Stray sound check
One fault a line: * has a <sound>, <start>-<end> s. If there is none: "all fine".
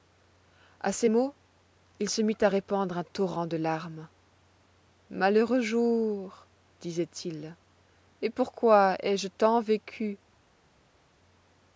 all fine